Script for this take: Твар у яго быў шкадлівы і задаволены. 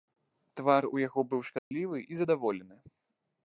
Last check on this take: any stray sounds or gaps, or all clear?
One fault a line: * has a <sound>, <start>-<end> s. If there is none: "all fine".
* has a dropout, 1.6-1.7 s